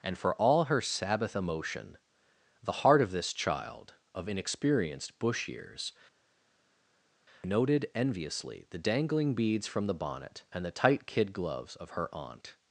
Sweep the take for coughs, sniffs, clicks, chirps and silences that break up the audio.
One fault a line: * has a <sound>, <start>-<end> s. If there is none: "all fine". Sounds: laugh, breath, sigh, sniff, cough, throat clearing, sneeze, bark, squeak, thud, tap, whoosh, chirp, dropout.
all fine